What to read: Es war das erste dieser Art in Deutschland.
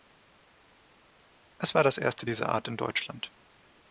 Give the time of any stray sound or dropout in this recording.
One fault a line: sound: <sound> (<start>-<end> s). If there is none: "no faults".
no faults